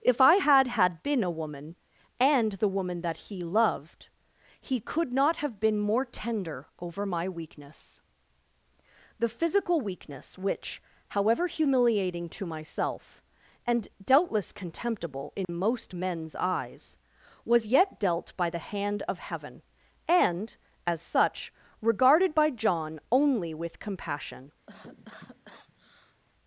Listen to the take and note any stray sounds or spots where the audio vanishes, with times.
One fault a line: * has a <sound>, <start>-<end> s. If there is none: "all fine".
* has a dropout, 15.4-15.5 s
* has a cough, 24.7-26.2 s